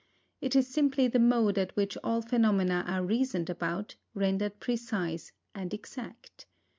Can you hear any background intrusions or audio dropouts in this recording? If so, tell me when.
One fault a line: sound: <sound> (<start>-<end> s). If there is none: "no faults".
no faults